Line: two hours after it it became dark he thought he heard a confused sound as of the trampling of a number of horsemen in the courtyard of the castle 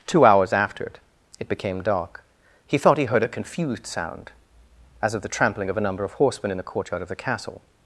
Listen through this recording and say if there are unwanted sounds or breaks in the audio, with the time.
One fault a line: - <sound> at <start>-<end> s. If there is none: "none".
none